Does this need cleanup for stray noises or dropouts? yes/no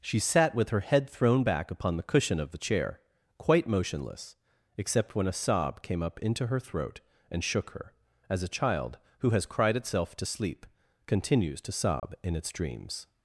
yes